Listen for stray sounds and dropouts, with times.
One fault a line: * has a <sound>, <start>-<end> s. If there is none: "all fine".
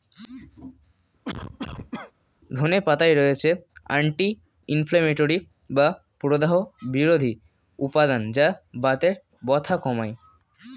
* has a cough, 1.2-2.1 s